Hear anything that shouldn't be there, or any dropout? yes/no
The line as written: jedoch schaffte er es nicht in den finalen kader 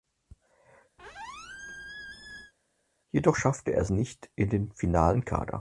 yes